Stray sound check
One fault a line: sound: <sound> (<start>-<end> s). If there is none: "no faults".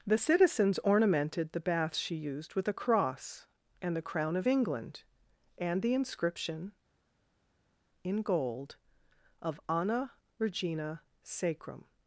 no faults